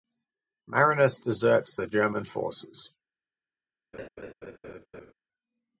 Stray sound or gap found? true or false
true